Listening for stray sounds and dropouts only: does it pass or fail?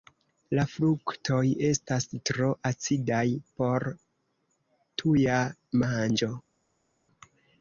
pass